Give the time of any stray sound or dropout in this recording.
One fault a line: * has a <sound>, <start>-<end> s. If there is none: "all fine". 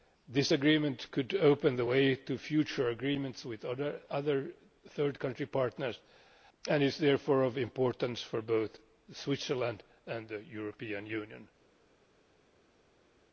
all fine